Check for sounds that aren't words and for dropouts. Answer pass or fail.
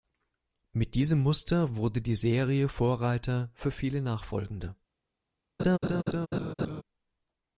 fail